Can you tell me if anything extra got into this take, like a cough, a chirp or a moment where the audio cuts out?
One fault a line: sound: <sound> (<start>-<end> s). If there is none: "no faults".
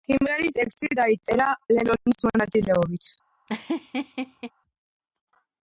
sound: laugh (3.5-4.5 s)